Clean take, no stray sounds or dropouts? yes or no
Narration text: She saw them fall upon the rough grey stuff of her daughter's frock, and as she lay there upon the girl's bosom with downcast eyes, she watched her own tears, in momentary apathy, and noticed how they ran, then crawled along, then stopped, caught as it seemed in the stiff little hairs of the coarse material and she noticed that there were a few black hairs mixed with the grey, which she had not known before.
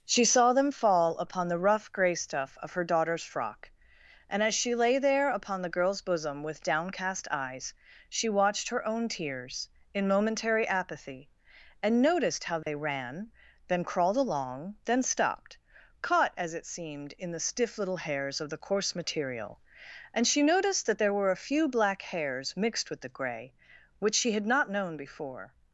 no